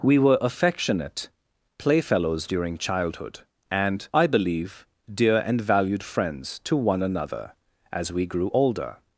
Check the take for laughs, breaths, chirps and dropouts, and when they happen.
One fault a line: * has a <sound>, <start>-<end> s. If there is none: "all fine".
all fine